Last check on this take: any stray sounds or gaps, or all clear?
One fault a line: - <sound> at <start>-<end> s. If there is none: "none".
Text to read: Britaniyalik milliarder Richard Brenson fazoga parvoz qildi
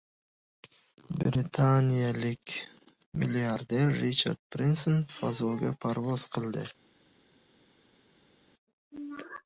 none